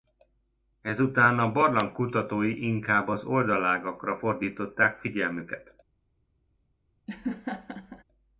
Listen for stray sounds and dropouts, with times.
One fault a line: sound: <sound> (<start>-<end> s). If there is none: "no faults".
sound: laugh (7.1-8.0 s)